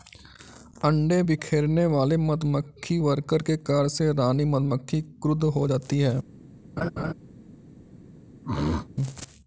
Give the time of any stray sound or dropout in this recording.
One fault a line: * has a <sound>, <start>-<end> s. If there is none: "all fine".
* has a laugh, 6.8-7.1 s
* has a throat clearing, 8.4-8.9 s